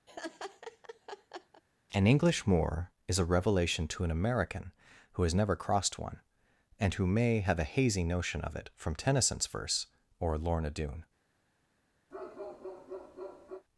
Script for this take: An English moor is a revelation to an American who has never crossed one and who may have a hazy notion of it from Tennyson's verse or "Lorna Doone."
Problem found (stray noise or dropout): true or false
true